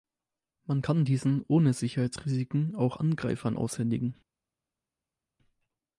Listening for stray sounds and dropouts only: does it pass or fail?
pass